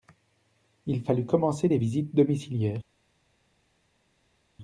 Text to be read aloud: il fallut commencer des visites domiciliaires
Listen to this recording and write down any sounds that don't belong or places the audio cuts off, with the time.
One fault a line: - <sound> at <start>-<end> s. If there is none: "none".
none